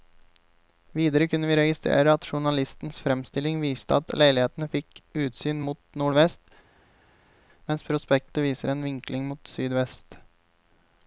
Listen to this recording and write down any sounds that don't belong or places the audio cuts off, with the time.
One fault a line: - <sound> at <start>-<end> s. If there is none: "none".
none